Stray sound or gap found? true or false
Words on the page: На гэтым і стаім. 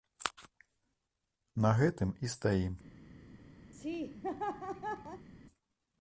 true